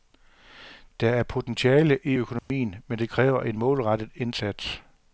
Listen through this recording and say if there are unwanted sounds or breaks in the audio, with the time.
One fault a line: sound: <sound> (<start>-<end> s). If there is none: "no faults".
sound: dropout (2.4-2.5 s)